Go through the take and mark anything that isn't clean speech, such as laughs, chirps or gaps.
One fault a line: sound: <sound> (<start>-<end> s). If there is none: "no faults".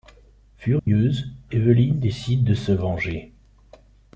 sound: dropout (0.8-0.9 s)